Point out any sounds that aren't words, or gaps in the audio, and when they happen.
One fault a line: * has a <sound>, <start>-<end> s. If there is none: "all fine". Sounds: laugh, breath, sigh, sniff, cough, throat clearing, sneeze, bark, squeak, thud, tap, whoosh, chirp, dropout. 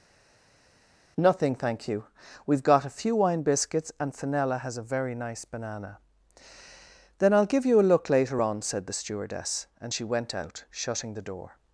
all fine